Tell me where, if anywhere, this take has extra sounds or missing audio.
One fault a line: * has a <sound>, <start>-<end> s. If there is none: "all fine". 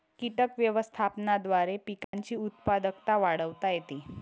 * has a dropout, 2.0-2.1 s